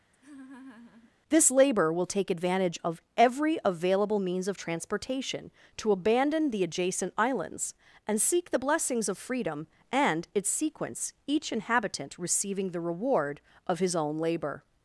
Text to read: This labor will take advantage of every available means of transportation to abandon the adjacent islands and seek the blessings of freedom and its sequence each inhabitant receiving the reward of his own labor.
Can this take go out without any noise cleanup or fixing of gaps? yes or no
no